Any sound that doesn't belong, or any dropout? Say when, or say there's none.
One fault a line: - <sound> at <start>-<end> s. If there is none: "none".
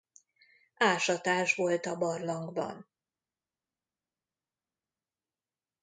none